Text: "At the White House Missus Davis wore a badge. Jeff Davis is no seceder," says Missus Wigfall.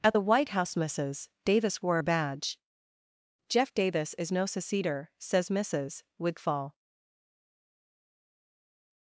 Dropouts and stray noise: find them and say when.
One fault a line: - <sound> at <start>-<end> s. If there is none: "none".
none